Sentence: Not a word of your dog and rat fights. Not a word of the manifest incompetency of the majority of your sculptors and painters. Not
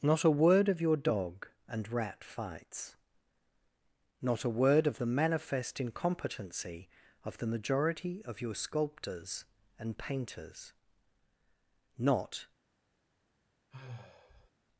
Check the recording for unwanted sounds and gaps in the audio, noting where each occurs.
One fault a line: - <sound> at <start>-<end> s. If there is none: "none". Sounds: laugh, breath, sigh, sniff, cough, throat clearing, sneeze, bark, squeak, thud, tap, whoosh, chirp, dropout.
- sigh at 13.7-14.5 s